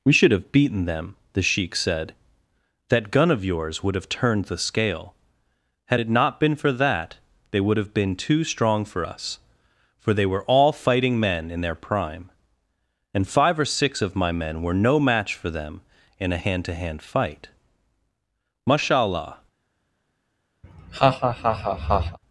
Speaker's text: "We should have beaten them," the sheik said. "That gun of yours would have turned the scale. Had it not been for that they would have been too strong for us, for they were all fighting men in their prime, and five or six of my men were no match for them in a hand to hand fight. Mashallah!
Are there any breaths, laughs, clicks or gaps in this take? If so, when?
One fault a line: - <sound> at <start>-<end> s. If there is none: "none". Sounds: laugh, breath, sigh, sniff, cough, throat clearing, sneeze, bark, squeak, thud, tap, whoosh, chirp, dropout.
- laugh at 20.6-22.2 s